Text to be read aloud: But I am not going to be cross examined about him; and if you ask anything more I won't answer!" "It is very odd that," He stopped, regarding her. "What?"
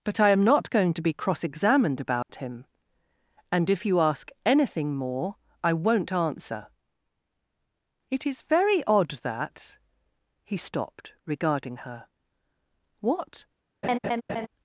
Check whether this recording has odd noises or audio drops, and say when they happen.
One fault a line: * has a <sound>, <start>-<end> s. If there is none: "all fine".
* has a dropout, 2.2-2.3 s
* has a laugh, 13.8-14.5 s